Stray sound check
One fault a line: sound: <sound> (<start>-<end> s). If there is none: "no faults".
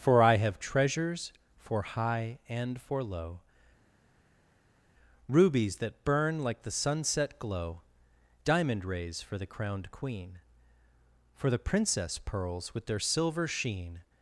no faults